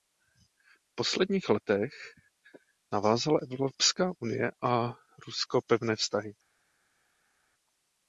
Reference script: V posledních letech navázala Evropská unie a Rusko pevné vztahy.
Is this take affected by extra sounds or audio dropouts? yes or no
no